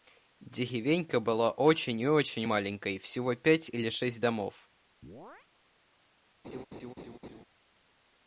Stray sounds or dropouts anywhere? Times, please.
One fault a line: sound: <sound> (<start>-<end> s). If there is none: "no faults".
sound: chirp (5.0-5.5 s)
sound: laugh (6.4-7.4 s)